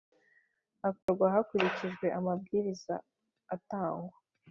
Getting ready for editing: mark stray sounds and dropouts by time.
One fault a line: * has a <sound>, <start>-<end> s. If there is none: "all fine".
* has a dropout, 1.0-1.1 s